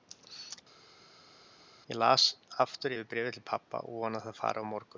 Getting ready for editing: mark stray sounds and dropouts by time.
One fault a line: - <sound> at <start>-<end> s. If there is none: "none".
none